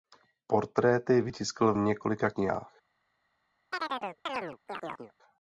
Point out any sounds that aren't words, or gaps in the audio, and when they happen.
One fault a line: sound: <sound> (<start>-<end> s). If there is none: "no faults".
sound: chirp (3.7-5.1 s)